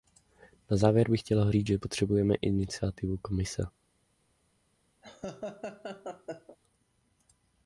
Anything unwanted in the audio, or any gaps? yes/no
yes